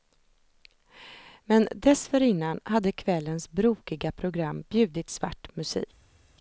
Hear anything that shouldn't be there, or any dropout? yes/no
no